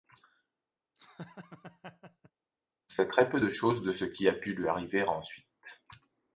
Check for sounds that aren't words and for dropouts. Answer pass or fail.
fail